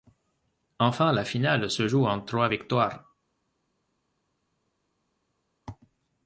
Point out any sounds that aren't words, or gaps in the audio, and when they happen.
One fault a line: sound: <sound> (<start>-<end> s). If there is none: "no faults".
no faults